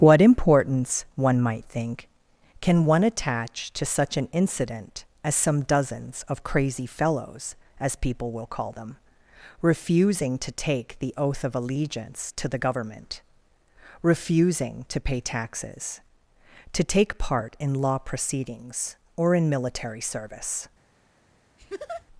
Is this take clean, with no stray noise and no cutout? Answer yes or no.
no